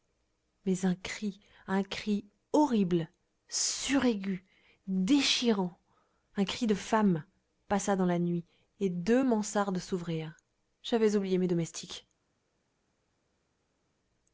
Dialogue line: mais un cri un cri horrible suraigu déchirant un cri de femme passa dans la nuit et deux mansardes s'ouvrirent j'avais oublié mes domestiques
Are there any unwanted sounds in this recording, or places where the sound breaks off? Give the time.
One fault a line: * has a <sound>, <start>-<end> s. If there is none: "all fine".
all fine